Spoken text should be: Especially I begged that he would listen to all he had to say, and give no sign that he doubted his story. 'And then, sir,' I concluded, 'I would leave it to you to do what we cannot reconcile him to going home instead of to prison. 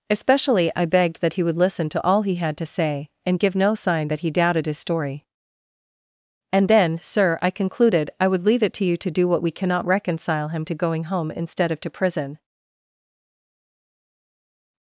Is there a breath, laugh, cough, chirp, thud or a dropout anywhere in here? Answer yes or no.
no